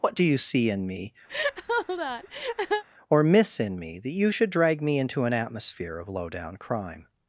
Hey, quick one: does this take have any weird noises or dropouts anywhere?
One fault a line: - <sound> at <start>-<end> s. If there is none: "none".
- laugh at 1.3-2.8 s